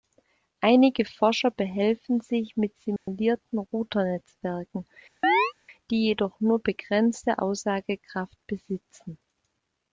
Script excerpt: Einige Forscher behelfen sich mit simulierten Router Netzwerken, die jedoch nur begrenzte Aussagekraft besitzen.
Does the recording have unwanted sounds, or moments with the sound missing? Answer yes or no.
yes